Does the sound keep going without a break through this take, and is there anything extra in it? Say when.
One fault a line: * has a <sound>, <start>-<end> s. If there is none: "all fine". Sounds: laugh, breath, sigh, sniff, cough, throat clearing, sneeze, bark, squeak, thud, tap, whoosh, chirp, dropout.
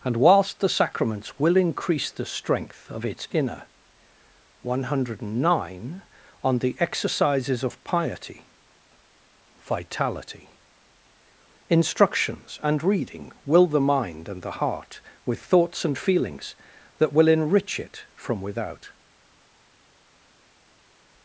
all fine